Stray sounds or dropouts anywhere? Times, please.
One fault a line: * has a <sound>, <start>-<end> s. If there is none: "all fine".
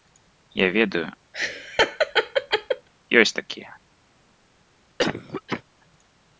* has a laugh, 1.3-2.9 s
* has a cough, 5.0-5.6 s